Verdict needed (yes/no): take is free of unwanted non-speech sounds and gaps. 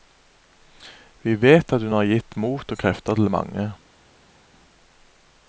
yes